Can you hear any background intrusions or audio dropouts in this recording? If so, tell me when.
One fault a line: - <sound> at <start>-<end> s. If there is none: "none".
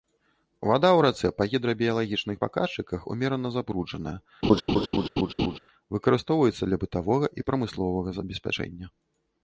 - laugh at 4.4-5.6 s